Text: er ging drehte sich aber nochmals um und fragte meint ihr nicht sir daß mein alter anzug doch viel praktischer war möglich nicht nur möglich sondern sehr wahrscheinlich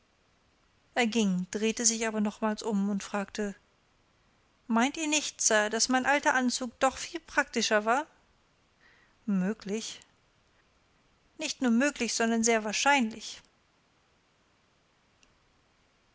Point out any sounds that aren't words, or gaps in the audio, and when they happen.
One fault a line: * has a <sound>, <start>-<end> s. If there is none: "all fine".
all fine